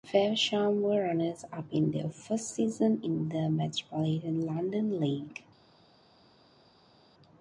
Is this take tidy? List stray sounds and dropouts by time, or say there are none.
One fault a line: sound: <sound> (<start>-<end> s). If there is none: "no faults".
no faults